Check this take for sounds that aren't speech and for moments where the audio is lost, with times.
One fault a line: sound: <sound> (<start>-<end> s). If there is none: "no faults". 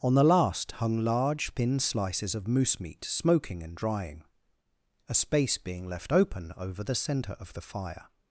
no faults